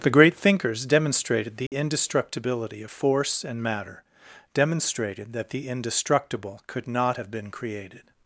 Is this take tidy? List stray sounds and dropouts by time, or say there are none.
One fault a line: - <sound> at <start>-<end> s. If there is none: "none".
- dropout at 1.7-1.7 s